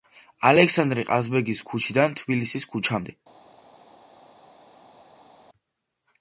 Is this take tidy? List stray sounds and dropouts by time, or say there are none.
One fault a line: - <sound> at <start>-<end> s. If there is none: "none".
none